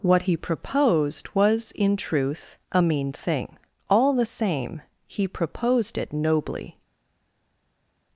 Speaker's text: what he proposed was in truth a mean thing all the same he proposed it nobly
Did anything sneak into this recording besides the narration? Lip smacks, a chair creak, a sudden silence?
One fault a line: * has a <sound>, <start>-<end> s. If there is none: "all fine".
all fine